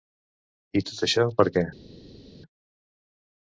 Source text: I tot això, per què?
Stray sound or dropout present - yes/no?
no